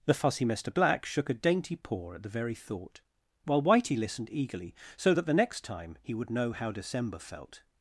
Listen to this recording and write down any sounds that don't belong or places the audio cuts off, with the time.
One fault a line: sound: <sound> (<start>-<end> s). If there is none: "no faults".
no faults